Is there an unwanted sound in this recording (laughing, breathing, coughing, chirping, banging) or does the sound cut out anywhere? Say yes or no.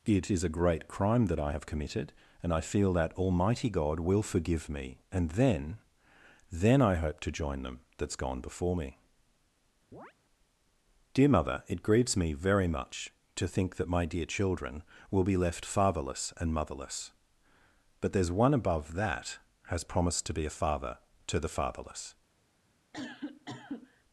yes